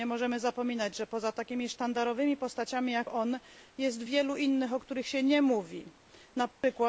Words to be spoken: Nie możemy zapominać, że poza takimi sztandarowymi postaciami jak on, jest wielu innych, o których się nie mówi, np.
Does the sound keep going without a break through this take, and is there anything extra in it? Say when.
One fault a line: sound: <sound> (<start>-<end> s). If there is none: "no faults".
sound: dropout (6.5-6.6 s)